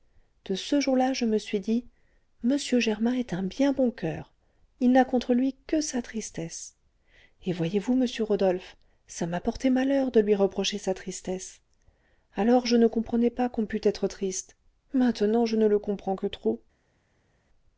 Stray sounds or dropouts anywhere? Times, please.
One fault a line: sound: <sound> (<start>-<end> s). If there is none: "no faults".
no faults